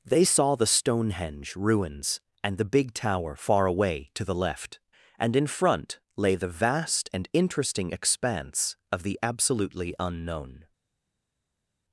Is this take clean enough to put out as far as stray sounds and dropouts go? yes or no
yes